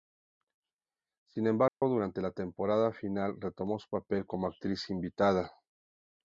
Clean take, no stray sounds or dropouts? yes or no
no